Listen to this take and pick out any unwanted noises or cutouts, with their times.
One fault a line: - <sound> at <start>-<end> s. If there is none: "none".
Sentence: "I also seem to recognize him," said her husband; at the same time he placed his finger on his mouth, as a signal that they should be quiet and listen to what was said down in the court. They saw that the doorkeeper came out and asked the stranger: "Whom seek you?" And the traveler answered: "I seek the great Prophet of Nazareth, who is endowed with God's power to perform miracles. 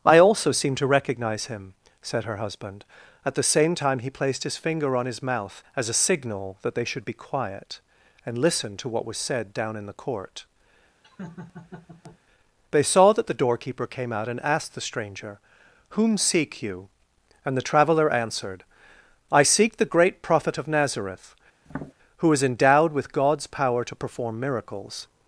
- laugh at 11.0-12.2 s
- tap at 21.7-21.9 s